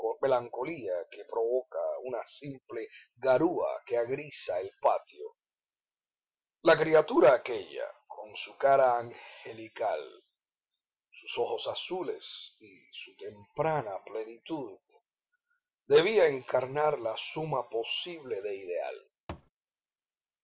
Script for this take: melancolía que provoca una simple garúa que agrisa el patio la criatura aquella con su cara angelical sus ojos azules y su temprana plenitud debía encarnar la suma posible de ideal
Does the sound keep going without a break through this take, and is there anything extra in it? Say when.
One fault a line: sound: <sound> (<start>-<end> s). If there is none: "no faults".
sound: thud (19.3-19.5 s)